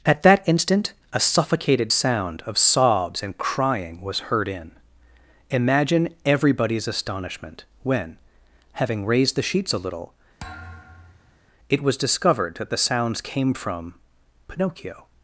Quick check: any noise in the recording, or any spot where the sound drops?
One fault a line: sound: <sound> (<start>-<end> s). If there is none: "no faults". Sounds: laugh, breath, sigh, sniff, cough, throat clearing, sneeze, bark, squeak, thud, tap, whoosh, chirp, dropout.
sound: thud (10.4-11.4 s)